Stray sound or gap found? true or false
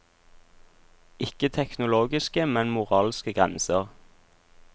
false